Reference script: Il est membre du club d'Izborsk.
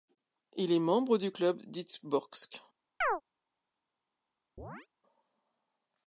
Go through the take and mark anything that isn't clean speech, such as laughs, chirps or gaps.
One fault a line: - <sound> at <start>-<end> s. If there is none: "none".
- chirp at 3.0-3.2 s
- chirp at 4.6-4.9 s